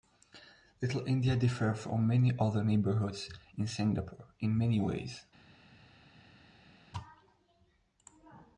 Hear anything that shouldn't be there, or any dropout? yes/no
no